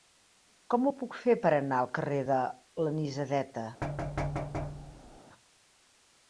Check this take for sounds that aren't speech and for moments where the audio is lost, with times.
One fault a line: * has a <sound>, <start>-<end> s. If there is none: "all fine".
* has a thud, 3.8-5.2 s